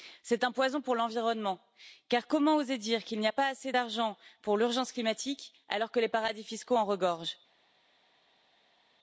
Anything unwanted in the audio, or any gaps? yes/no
no